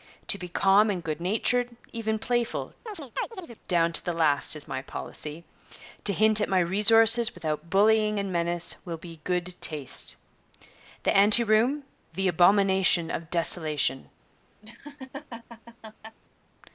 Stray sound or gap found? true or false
true